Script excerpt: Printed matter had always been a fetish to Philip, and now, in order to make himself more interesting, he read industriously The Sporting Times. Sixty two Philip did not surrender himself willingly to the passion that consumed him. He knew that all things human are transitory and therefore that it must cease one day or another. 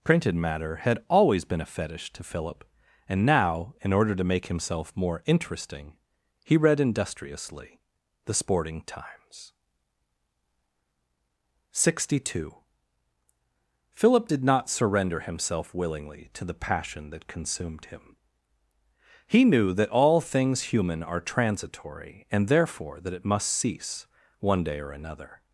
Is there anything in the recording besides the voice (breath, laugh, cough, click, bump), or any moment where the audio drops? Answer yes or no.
no